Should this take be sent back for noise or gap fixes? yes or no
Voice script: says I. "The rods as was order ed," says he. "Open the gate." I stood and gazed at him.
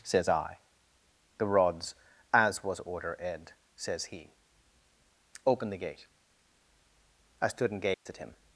yes